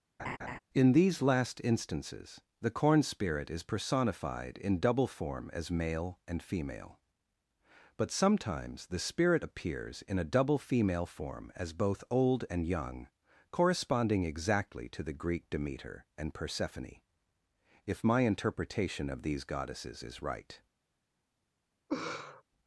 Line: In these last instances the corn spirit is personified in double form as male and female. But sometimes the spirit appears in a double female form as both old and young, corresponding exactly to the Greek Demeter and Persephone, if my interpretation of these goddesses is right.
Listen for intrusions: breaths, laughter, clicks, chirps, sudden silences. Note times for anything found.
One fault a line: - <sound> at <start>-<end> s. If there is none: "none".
- laugh at 0.2-0.6 s
- laugh at 21.9-22.4 s